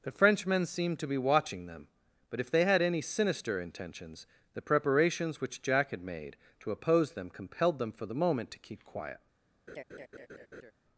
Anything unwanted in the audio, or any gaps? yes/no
yes